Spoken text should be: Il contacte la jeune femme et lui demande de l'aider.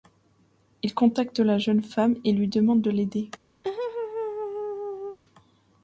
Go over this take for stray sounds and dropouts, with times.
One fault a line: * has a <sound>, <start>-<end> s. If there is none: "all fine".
* has a laugh, 3.6-5.2 s